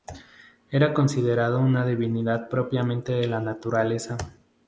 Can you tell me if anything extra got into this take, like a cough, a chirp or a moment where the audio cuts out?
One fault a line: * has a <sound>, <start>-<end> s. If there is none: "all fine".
all fine